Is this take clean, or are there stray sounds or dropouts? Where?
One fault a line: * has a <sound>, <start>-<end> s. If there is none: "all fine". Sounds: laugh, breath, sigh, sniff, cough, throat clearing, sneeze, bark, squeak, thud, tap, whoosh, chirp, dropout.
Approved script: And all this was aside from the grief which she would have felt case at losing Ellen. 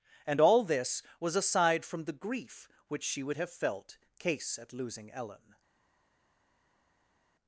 all fine